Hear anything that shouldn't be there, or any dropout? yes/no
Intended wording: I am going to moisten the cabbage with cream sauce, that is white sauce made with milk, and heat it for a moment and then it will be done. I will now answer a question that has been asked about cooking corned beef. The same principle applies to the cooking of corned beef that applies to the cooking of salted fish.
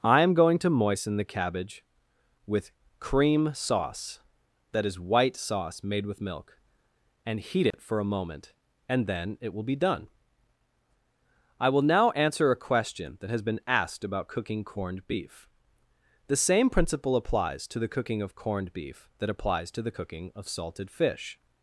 yes